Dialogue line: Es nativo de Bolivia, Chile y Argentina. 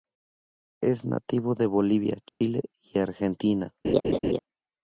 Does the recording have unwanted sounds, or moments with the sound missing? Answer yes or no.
yes